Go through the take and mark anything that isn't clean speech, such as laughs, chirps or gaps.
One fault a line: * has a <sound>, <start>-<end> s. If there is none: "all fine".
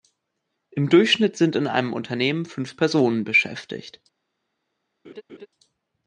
* has a laugh, 5.0-5.5 s